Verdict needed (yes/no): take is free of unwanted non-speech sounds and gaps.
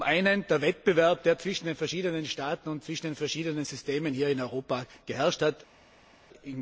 yes